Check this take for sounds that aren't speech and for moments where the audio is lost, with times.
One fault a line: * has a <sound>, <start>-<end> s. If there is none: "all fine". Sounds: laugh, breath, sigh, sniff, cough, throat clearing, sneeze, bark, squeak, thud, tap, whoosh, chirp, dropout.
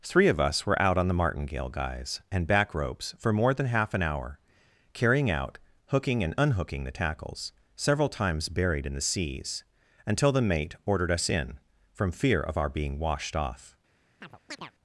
* has a chirp, 14.2-14.7 s